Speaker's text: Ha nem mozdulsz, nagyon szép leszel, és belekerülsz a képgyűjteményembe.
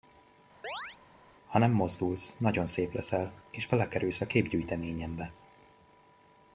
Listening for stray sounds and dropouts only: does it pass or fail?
fail